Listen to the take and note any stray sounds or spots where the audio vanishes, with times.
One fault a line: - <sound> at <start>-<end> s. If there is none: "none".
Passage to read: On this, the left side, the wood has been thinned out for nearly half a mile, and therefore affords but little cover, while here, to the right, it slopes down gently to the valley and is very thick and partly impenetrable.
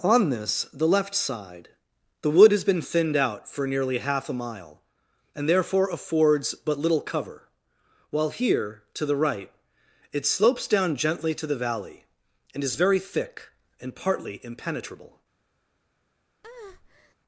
- breath at 16.4-17.1 s